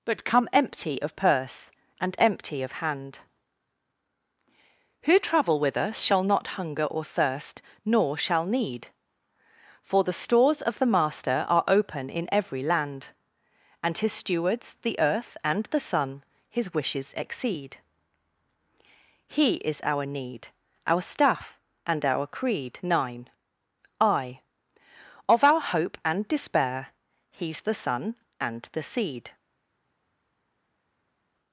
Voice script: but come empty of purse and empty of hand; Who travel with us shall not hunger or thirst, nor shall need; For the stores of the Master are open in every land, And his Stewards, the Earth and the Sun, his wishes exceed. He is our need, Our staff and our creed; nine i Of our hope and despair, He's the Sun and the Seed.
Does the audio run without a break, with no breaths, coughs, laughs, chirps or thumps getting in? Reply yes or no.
yes